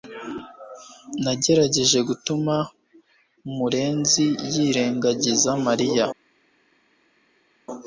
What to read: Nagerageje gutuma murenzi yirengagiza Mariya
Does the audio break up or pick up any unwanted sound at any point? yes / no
no